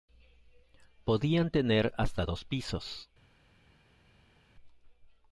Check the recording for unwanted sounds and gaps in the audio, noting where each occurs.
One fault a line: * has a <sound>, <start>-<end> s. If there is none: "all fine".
all fine